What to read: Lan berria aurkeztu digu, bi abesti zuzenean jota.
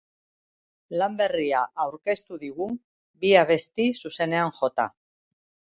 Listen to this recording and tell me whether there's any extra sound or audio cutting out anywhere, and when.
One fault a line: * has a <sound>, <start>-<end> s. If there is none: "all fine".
all fine